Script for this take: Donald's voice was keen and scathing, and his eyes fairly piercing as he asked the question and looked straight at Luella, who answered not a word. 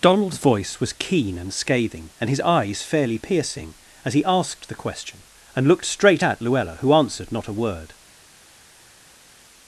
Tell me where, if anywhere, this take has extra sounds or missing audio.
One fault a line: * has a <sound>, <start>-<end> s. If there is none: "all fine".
all fine